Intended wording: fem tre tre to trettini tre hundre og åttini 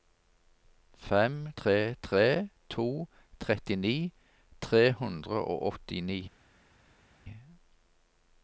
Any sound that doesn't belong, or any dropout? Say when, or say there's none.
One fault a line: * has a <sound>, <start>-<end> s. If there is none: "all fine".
all fine